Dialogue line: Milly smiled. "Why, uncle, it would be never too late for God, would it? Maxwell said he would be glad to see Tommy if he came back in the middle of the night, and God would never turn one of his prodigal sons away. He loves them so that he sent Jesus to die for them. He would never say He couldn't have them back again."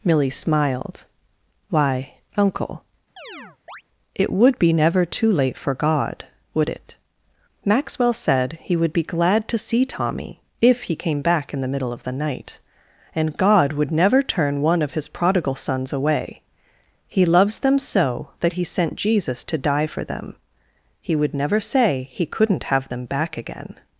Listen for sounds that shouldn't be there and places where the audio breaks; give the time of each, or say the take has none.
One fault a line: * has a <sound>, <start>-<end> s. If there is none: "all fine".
* has a chirp, 3.2-3.8 s